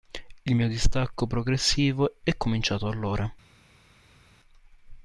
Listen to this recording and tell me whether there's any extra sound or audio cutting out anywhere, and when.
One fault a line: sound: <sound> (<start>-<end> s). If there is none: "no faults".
no faults